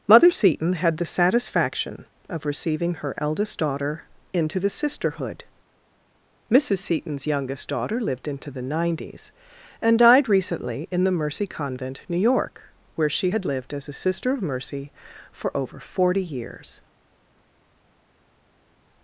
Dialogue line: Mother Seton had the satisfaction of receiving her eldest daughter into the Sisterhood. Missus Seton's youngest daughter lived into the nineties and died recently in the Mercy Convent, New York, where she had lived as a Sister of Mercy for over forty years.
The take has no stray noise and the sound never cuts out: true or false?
true